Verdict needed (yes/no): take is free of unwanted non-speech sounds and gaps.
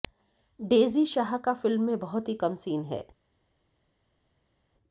yes